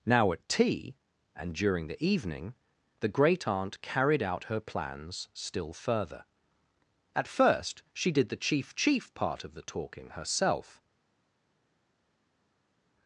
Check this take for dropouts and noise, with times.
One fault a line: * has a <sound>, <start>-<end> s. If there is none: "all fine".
all fine